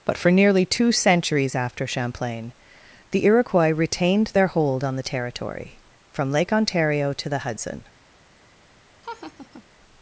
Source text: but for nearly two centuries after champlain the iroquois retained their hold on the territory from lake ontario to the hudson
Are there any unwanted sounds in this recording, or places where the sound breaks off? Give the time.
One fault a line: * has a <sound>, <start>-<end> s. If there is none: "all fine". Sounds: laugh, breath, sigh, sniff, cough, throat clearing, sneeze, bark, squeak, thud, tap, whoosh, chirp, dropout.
* has a laugh, 9.0-9.6 s